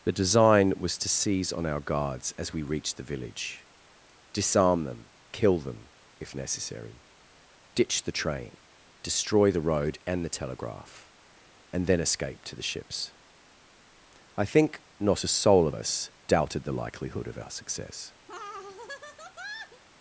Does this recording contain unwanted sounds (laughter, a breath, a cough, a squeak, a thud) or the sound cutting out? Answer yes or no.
yes